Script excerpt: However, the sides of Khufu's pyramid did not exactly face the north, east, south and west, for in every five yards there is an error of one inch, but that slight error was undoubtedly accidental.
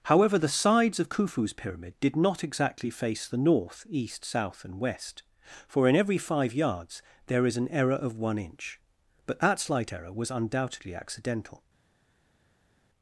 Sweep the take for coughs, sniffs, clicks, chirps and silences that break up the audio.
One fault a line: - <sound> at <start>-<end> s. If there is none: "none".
none